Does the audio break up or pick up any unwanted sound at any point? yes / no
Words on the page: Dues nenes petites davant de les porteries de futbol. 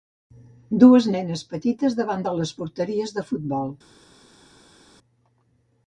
no